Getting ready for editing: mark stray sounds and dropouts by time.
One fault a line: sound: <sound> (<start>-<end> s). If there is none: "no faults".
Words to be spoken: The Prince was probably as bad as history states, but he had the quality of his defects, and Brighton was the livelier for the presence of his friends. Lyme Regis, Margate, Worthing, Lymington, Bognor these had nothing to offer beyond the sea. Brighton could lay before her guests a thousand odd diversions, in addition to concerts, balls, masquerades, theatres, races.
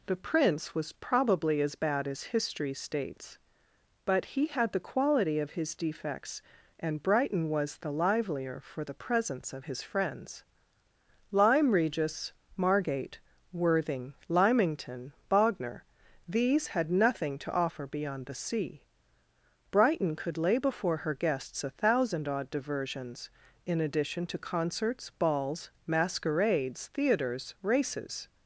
no faults